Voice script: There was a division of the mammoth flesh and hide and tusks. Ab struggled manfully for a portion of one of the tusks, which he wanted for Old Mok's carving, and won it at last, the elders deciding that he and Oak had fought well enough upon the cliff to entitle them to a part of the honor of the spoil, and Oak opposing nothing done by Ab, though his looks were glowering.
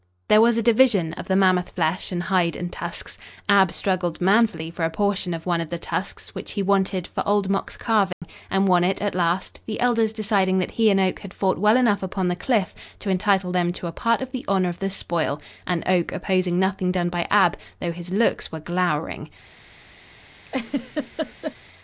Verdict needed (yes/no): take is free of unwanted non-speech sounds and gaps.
no